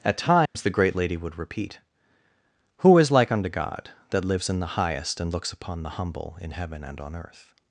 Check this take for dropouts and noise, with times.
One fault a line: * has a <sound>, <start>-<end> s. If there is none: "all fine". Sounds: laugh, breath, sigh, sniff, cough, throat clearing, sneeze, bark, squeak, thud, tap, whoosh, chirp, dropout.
* has a dropout, 0.5-0.6 s